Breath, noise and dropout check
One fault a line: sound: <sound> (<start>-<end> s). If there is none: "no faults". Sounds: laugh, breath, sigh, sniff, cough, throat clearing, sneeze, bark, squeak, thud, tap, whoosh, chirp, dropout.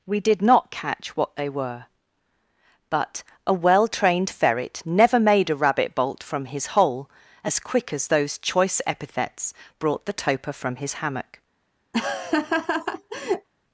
sound: laugh (11.9-13.5 s)